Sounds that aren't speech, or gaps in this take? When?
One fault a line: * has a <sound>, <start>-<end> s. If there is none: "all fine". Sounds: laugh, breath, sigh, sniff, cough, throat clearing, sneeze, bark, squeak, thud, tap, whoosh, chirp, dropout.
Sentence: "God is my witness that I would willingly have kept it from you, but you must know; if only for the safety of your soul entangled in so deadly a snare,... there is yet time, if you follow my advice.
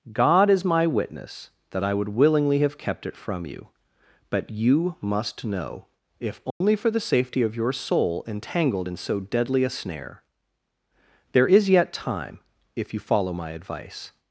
* has a dropout, 6.5-6.6 s